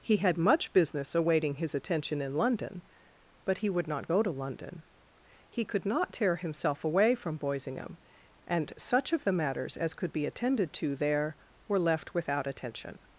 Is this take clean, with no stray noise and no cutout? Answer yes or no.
yes